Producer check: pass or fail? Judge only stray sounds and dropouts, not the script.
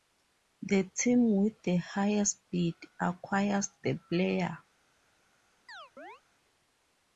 fail